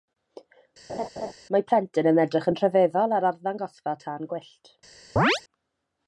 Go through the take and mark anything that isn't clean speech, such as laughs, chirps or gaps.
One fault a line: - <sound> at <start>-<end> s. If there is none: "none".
- laugh at 0.9-1.3 s
- chirp at 5.2-5.4 s